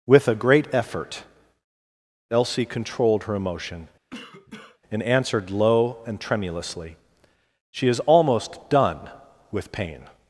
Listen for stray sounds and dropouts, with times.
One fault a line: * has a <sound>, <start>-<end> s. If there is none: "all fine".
* has a cough, 4.1-4.8 s